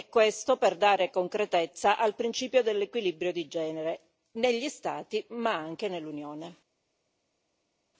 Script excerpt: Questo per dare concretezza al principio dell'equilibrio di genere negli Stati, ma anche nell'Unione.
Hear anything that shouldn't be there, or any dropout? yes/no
no